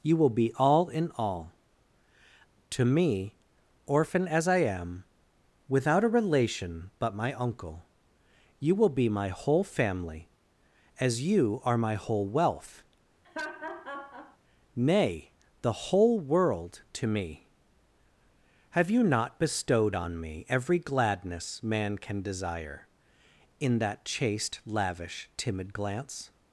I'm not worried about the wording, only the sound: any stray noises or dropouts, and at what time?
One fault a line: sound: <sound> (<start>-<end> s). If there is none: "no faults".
sound: laugh (13.2-14.4 s)